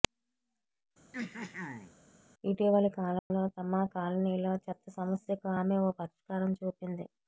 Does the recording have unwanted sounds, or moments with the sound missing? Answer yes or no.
yes